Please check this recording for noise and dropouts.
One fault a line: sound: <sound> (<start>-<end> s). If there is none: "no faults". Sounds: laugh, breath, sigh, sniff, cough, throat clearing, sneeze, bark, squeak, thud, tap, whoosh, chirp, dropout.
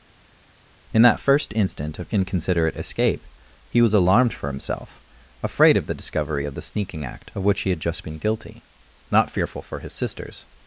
no faults